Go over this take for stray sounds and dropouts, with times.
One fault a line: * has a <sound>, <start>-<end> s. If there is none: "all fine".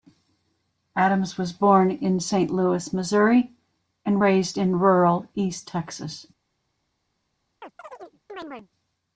* has a chirp, 7.6-8.7 s